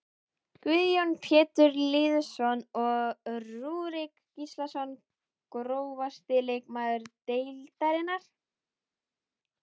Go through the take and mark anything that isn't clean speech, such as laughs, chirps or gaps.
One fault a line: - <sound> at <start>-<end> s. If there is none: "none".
none